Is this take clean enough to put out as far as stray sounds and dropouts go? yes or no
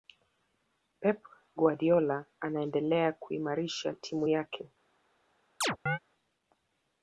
no